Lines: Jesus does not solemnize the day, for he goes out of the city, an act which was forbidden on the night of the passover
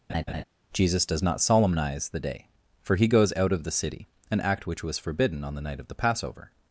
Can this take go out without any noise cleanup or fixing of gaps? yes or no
no